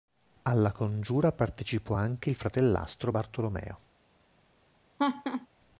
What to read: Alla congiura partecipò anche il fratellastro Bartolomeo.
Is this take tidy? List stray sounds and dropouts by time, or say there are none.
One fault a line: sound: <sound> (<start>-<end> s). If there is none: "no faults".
sound: laugh (5.0-5.5 s)